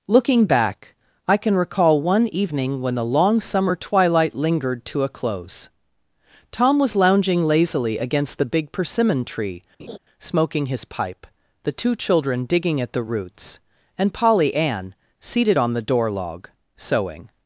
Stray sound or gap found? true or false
true